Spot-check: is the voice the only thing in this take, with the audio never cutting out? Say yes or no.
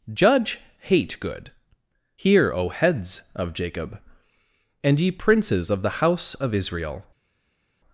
yes